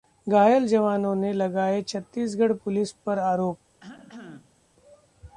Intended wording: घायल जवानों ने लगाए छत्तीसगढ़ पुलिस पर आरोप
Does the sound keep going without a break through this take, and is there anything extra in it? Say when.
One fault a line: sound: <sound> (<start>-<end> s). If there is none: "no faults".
sound: cough (3.8-4.6 s)